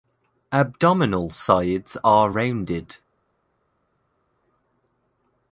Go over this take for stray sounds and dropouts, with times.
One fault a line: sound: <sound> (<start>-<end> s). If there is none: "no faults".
no faults